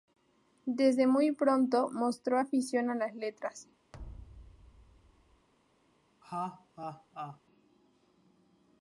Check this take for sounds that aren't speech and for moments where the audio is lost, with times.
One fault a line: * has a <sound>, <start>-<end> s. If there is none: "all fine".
* has a thud, 3.9-5.5 s
* has a laugh, 6.2-7.4 s